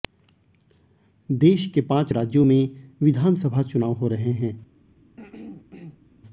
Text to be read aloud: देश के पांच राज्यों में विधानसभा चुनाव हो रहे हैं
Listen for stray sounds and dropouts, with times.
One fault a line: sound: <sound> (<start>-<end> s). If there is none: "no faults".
sound: throat clearing (5.2-6.1 s)